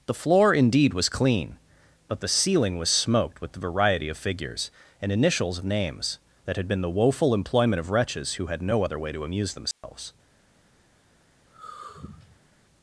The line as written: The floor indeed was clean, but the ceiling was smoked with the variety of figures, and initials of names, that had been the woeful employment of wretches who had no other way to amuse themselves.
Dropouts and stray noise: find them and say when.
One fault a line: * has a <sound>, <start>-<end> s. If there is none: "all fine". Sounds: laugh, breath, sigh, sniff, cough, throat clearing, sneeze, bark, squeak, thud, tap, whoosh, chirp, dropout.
* has a dropout, 9.7-9.8 s
* has a sigh, 11.5-12.5 s